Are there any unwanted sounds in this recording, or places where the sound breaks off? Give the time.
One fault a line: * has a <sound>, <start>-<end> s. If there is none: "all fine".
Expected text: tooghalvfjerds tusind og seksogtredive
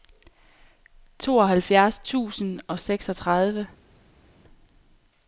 all fine